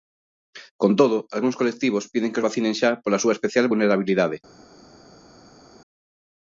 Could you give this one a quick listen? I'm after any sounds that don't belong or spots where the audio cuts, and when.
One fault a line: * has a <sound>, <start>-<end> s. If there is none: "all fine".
all fine